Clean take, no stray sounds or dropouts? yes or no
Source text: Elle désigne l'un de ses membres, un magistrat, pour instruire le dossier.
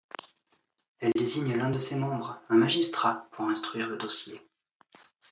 yes